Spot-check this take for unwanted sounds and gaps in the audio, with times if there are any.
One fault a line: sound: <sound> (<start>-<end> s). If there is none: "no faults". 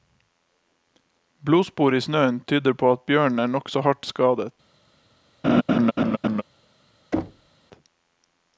sound: laugh (5.4-6.4 s)
sound: thud (7.1-7.5 s)